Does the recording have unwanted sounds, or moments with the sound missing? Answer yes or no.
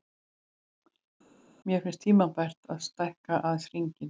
no